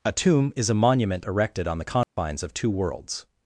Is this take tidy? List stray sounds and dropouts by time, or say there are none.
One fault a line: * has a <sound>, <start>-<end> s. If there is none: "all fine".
* has a dropout, 2.0-2.2 s